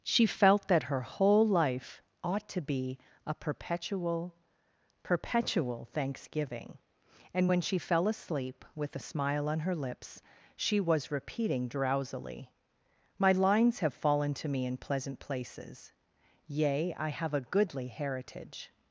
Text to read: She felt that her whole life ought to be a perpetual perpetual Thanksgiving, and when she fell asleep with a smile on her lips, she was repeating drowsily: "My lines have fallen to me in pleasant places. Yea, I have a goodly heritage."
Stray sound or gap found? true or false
false